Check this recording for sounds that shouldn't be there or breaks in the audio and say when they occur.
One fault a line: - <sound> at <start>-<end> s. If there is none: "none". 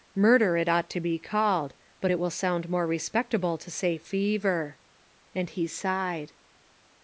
none